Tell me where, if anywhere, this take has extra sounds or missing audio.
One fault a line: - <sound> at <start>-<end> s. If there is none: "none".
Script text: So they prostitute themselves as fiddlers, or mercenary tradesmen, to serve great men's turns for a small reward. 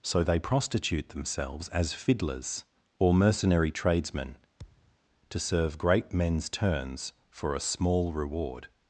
- thud at 4.6-5.0 s